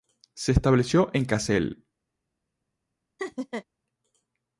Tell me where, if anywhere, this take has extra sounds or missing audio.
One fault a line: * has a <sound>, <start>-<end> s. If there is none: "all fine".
* has a laugh, 3.2-3.7 s